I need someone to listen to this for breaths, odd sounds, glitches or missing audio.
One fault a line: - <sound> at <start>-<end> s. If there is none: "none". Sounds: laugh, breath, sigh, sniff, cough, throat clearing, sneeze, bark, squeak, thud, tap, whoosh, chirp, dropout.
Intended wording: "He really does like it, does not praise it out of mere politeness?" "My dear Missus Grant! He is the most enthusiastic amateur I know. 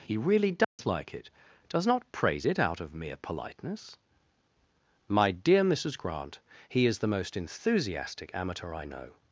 - dropout at 0.6-0.8 s